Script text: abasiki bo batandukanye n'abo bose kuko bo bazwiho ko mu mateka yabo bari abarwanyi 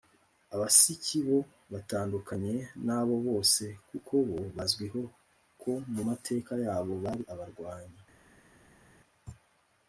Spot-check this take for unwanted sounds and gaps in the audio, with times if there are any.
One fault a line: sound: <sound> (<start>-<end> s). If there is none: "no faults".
no faults